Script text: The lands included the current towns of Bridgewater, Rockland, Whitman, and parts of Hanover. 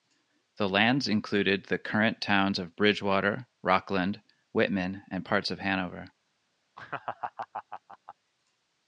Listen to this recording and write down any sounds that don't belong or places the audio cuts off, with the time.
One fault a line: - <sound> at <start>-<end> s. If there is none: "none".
- laugh at 6.8-8.2 s